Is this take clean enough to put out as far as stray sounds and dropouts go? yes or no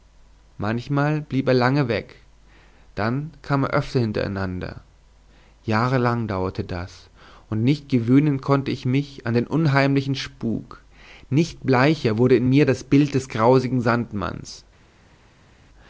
yes